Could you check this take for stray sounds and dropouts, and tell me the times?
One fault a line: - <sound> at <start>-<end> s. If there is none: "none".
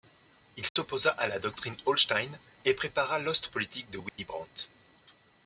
- dropout at 0.7-0.8 s
- dropout at 4.1-4.2 s